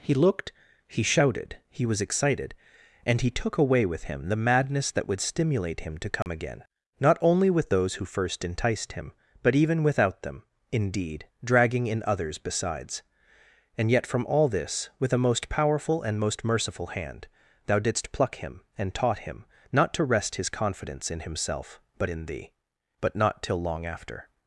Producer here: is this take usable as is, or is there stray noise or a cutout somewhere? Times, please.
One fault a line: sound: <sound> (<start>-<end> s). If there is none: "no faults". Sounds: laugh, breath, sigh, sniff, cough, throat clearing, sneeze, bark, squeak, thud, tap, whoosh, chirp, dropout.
sound: dropout (6.2-6.3 s)